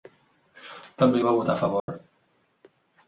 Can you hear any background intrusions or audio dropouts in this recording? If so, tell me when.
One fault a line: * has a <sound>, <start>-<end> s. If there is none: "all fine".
* has a dropout, 1.8-1.9 s